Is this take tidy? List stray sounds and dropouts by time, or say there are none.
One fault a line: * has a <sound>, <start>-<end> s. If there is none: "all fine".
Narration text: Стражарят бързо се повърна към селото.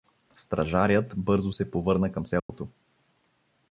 * has a dropout, 2.4-2.5 s